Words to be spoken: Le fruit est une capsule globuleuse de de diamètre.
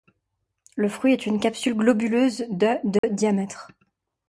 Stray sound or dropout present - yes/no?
yes